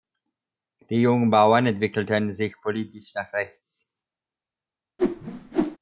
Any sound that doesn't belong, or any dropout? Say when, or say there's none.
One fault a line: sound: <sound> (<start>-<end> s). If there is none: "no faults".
sound: whoosh (5.0-5.8 s)